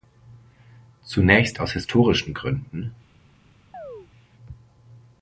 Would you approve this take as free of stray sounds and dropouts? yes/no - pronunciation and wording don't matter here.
no